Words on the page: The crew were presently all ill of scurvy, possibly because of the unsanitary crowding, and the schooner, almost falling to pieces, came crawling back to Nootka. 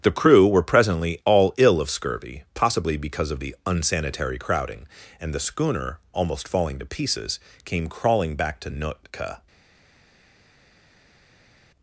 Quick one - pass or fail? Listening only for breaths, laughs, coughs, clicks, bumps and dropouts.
pass